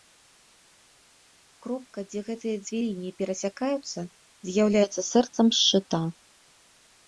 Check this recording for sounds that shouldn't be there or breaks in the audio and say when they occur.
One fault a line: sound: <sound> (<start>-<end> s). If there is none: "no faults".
no faults